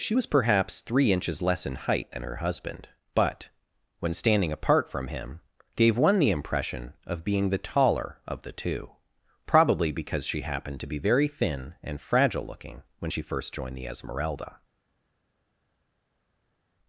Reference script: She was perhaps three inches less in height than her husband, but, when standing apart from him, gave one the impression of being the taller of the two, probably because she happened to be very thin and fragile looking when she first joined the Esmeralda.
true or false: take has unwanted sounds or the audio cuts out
false